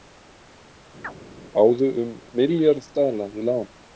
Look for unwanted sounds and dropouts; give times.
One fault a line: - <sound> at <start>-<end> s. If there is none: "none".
- chirp at 1.0-1.1 s